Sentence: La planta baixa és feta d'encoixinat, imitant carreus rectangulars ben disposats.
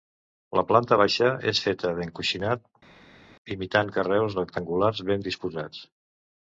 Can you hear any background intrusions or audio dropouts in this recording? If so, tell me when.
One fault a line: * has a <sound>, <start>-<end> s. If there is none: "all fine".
all fine